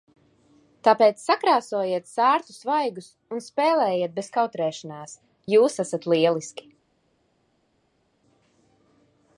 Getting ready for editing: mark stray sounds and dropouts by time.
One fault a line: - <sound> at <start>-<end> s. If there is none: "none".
none